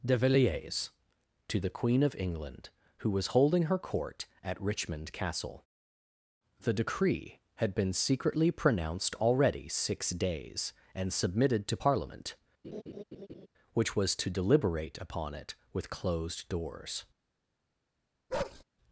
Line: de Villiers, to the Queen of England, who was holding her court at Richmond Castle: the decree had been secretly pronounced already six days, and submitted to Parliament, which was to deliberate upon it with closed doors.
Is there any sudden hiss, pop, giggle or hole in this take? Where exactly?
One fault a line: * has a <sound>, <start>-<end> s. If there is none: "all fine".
* has a laugh, 12.6-13.5 s
* has a bark, 18.3-18.6 s